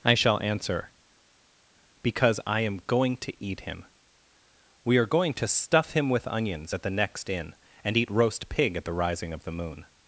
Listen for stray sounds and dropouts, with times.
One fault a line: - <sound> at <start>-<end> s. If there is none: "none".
none